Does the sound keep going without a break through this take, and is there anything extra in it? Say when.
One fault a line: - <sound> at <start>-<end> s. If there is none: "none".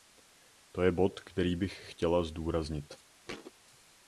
- thud at 3.2-3.5 s